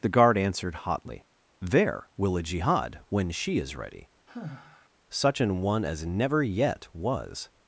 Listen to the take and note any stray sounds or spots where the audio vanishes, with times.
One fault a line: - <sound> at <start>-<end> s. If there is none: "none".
- sigh at 4.3-4.9 s